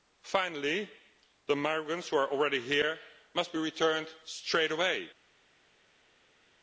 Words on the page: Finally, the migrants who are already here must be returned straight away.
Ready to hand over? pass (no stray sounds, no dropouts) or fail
pass